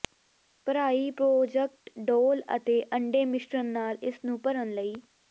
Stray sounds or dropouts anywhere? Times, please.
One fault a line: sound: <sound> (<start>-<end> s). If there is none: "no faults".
no faults